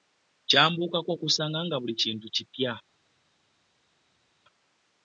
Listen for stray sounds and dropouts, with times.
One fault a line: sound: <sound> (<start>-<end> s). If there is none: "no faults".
no faults